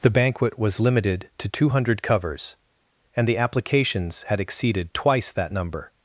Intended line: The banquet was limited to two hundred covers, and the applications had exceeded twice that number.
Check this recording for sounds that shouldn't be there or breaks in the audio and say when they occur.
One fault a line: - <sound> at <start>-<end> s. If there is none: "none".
none